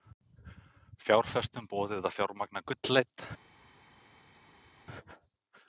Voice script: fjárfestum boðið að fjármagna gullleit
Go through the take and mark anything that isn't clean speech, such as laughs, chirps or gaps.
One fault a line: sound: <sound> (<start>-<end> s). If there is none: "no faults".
no faults